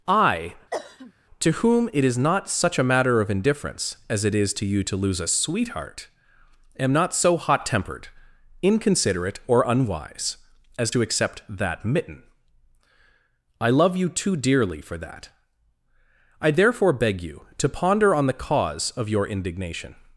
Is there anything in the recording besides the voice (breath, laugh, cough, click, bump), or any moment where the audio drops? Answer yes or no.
yes